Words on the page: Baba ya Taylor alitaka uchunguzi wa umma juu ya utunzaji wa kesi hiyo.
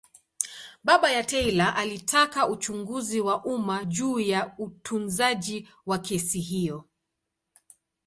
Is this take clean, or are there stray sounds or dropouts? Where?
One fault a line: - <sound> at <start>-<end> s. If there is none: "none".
none